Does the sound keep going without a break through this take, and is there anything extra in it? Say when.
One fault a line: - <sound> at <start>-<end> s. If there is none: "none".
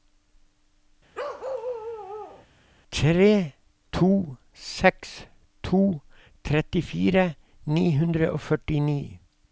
- bark at 1.1-2.5 s